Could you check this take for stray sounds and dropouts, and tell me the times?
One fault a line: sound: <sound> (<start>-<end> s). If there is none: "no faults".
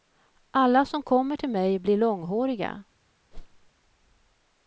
sound: whoosh (3.3-3.7 s)